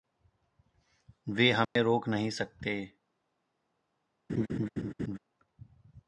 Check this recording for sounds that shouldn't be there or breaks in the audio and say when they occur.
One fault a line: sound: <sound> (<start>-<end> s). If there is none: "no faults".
sound: dropout (1.6-1.8 s)
sound: laugh (4.3-5.2 s)